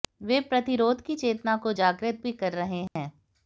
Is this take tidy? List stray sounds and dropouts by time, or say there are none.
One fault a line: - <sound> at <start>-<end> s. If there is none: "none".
- dropout at 2.9-3.0 s